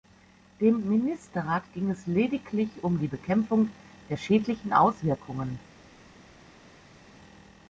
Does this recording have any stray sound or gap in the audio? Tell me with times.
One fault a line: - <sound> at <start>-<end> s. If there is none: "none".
none